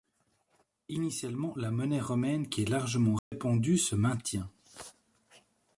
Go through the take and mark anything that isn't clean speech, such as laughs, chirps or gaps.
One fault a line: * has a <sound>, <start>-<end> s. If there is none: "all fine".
* has a dropout, 3.2-3.3 s